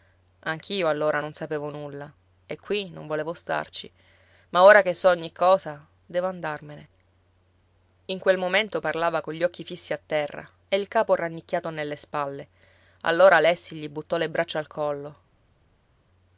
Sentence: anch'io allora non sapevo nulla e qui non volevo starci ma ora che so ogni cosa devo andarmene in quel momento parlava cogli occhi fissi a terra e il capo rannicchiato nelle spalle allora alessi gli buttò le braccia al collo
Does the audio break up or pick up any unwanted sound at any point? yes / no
no